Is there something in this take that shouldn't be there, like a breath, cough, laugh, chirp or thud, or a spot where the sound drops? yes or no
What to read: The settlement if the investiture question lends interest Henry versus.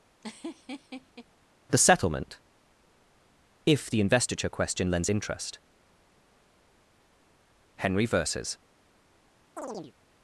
yes